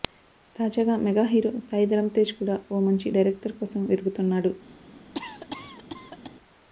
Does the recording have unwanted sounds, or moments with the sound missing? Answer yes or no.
yes